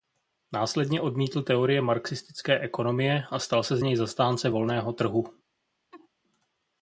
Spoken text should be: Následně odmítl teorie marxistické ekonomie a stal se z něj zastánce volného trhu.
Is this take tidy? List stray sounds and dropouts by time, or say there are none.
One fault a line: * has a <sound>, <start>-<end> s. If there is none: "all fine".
* has a laugh, 5.9-6.1 s